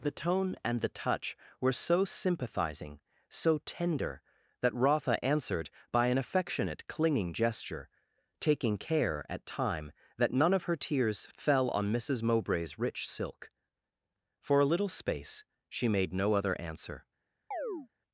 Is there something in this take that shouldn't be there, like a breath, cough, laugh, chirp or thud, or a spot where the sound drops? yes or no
yes